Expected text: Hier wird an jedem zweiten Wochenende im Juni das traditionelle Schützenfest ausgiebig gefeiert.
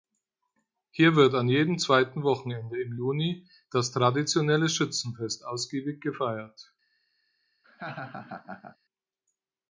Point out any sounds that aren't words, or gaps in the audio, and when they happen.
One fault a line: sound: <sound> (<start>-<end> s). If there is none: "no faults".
sound: laugh (7.6-8.8 s)